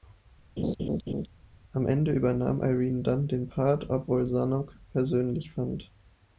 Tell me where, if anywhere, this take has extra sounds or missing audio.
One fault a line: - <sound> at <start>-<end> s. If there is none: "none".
- laugh at 0.6-1.3 s